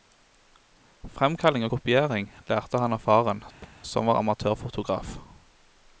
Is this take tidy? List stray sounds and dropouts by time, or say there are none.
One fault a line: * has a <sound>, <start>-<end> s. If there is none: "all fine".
* has a thud, 3.6-3.8 s